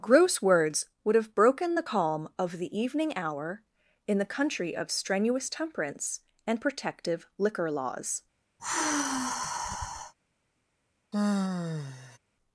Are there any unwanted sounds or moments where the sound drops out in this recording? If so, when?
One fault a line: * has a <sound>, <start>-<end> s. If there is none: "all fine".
* has a sigh, 8.6-10.1 s
* has a sigh, 11.1-12.2 s